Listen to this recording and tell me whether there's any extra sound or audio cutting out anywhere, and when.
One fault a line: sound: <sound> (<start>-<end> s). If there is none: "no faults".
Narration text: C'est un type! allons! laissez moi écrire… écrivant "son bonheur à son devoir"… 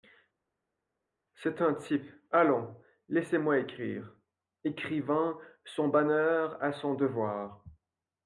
no faults